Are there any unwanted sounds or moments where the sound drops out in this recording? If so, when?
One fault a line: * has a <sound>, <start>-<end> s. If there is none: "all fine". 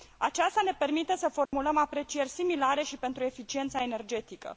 * has a dropout, 1.5-1.5 s